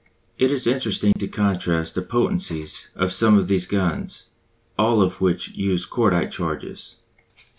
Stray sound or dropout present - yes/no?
yes